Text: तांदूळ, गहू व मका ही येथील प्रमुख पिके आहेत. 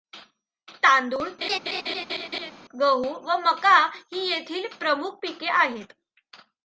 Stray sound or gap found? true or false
true